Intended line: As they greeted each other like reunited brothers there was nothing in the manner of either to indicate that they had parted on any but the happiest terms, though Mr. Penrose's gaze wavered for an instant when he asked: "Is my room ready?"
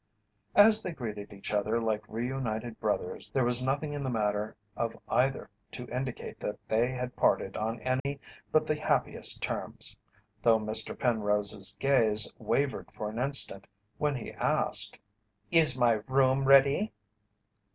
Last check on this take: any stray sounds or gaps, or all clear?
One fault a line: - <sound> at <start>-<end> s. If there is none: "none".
- dropout at 8.0-8.1 s